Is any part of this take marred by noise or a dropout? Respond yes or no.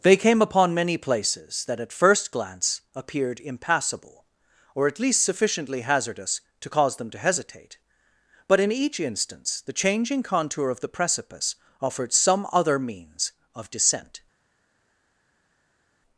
no